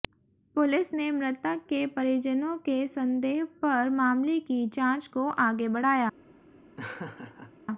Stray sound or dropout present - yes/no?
yes